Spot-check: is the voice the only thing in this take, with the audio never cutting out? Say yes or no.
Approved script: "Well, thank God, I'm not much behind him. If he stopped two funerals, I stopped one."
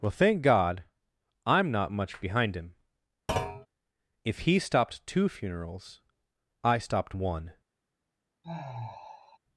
no